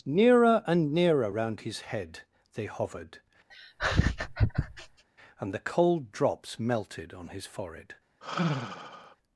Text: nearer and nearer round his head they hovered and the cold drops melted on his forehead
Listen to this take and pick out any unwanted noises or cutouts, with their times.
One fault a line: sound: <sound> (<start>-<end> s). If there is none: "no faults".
sound: laugh (3.5-5.0 s)
sound: sigh (8.2-9.2 s)